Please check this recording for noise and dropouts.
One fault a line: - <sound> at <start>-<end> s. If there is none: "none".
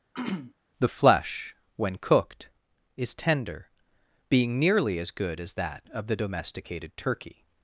- throat clearing at 0.1-0.5 s